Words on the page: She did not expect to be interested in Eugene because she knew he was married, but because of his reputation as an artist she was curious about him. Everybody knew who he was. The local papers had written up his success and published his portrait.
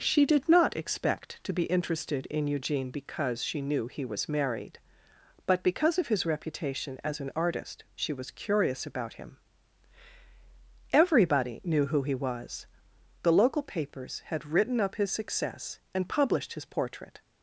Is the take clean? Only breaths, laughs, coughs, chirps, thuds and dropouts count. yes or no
yes